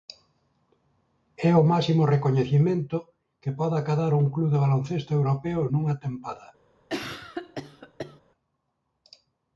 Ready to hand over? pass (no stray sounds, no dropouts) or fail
fail